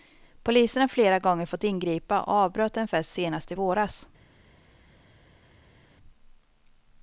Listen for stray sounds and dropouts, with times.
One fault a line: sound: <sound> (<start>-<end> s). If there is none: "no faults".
no faults